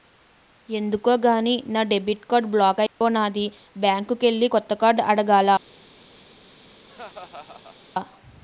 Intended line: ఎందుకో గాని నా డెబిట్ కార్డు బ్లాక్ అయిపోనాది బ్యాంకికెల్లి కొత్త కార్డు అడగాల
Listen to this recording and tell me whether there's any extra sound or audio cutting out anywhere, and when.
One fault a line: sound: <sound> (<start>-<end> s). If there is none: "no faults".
sound: dropout (2.9-3.0 s)
sound: laugh (6.8-7.8 s)